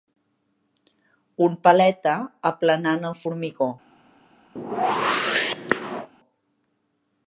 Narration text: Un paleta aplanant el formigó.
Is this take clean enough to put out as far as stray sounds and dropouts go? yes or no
no